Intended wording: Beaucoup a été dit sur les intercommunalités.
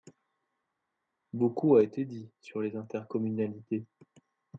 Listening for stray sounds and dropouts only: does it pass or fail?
pass